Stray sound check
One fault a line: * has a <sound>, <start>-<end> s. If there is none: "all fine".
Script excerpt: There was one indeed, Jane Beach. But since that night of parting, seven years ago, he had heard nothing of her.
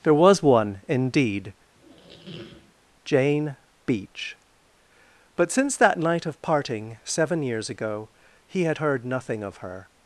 * has a squeak, 1.7-2.7 s